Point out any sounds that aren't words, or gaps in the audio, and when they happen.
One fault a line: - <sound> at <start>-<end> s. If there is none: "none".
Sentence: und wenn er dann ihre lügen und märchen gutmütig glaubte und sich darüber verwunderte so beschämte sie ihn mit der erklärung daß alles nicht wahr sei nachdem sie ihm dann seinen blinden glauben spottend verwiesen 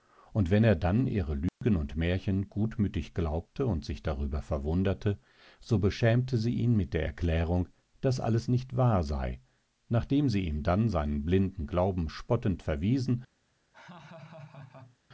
- dropout at 1.5-1.6 s
- laugh at 13.7-15.0 s